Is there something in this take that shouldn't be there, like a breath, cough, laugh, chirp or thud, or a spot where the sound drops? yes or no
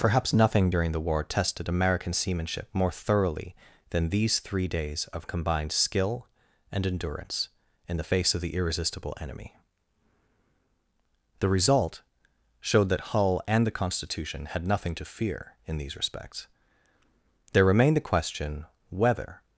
no